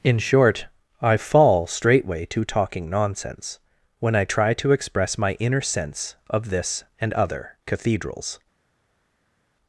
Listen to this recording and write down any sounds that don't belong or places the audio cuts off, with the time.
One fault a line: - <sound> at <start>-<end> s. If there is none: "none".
none